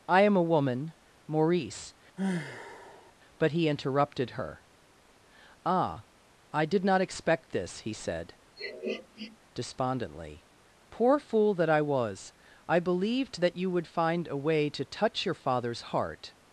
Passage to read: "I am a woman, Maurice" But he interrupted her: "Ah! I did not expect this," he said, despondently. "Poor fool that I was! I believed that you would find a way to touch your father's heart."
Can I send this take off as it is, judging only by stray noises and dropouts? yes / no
no